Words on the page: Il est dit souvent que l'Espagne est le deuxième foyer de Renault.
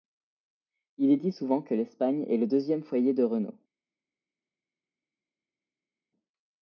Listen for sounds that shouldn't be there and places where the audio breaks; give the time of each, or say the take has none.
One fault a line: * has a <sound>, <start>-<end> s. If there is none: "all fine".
all fine